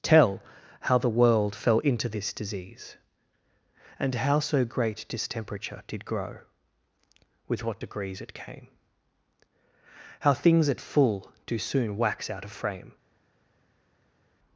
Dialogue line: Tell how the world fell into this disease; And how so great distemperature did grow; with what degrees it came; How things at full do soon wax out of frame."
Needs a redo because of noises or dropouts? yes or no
no